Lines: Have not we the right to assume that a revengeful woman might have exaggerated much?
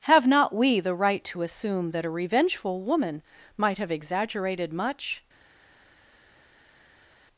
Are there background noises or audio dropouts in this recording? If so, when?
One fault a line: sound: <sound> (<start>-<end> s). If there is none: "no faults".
no faults